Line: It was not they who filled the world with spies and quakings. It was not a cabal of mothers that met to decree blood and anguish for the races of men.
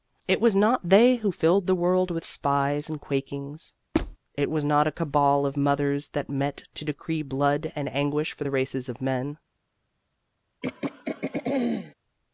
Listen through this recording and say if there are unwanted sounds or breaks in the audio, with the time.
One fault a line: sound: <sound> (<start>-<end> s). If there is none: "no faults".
sound: squeak (3.9-4.2 s)
sound: throat clearing (10.6-11.9 s)